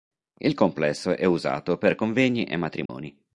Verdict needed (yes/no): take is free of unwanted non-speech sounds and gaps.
no